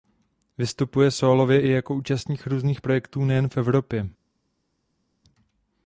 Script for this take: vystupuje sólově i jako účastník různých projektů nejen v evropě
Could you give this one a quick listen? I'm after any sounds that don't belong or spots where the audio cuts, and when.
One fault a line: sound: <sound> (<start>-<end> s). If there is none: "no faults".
no faults